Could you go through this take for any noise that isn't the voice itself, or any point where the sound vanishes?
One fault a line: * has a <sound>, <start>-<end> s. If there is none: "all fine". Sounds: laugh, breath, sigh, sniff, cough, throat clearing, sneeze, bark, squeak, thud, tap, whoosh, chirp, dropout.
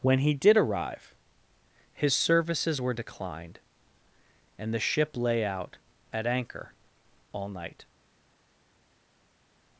all fine